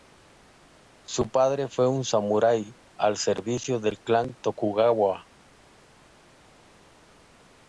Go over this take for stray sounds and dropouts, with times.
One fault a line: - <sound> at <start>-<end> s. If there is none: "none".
none